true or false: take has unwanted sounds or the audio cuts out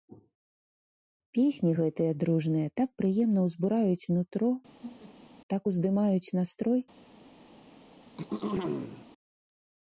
true